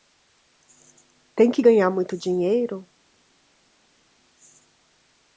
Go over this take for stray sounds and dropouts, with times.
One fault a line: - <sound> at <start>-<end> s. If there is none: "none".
none